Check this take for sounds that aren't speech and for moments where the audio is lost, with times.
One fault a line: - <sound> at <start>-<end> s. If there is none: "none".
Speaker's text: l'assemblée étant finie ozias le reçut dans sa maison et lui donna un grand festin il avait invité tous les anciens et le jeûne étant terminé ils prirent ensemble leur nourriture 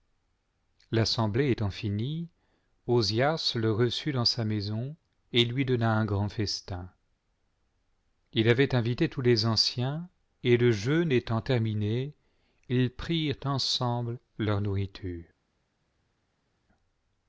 none